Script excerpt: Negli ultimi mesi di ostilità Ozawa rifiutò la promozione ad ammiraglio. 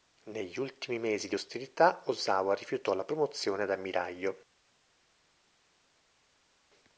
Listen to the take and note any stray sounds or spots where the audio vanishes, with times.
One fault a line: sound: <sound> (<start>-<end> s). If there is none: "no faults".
no faults